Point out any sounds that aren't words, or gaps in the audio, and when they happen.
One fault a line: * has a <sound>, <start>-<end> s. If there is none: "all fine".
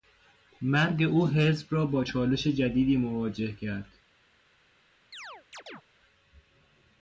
* has a chirp, 5.1-5.8 s